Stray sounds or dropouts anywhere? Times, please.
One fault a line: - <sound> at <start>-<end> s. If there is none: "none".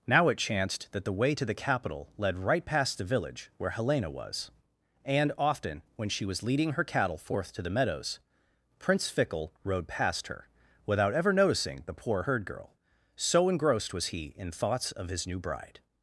none